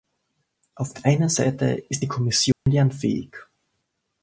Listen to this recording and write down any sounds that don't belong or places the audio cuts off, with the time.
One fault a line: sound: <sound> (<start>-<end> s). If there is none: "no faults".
sound: dropout (2.5-2.7 s)